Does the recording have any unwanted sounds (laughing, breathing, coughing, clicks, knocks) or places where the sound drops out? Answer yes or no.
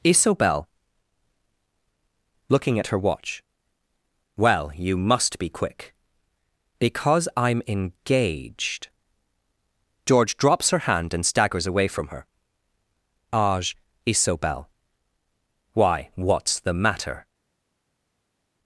no